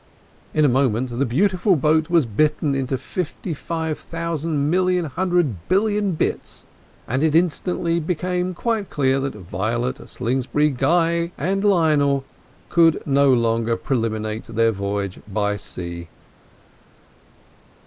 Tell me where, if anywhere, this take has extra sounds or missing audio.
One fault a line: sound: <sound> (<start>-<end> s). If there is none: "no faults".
no faults